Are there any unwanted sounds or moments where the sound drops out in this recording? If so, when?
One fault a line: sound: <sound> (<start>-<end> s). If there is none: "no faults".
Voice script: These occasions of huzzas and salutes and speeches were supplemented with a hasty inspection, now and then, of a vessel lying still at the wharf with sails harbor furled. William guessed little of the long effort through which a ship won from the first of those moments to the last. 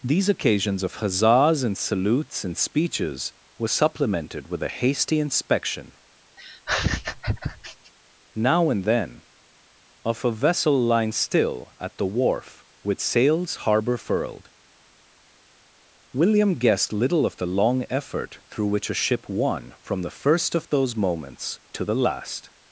sound: laugh (6.4-7.9 s)